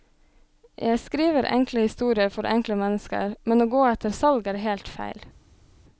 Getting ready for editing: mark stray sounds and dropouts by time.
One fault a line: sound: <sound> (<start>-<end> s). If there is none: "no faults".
no faults